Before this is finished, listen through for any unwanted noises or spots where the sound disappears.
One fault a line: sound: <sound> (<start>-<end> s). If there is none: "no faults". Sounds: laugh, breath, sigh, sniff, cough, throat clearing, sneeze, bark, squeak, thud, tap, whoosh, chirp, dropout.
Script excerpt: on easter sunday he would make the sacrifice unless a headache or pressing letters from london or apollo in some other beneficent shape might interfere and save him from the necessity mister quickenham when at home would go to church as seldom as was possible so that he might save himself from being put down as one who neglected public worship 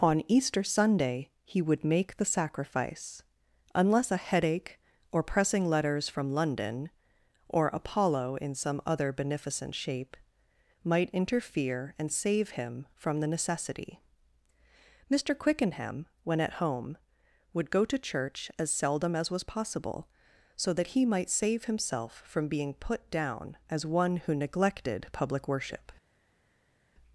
no faults